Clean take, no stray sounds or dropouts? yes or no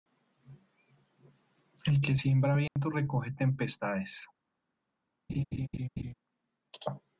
no